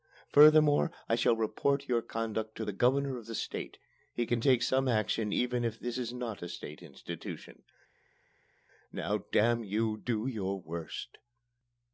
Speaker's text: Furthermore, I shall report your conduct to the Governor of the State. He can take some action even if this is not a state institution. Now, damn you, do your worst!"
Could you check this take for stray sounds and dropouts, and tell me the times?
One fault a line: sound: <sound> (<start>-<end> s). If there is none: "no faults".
no faults